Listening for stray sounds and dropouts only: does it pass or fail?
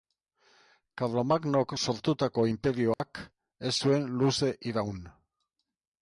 fail